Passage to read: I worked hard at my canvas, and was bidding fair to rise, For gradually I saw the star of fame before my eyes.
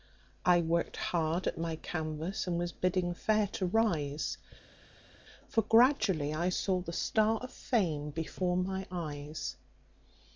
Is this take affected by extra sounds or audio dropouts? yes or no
no